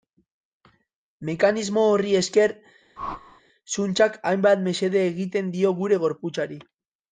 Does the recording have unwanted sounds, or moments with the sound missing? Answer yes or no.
yes